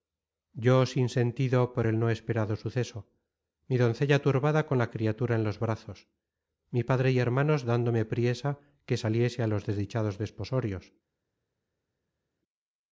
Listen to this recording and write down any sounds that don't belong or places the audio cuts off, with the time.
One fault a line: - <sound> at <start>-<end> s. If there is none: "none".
none